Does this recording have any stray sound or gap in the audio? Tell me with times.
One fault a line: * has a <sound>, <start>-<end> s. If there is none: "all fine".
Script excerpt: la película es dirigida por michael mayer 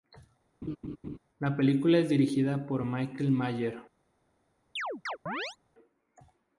* has a laugh, 0.6-1.2 s
* has a chirp, 4.8-5.6 s